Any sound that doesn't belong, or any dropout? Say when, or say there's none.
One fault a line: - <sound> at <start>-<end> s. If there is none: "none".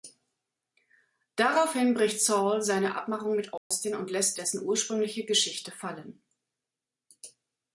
- dropout at 3.6-3.7 s